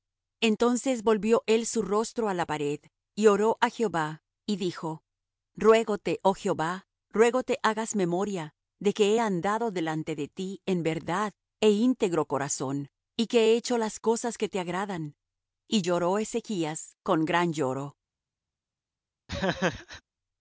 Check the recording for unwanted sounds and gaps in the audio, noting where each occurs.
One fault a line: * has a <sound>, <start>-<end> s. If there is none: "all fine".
* has a laugh, 19.3-20.0 s